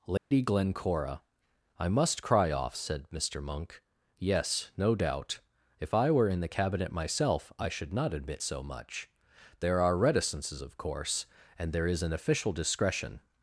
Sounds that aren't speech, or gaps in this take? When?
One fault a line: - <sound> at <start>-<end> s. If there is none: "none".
- dropout at 0.2-0.3 s